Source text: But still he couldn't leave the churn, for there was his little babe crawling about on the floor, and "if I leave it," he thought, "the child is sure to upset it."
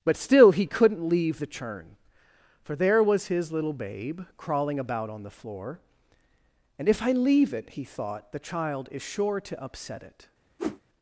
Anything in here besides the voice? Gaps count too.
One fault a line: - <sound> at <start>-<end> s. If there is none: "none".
- whoosh at 10.6-10.8 s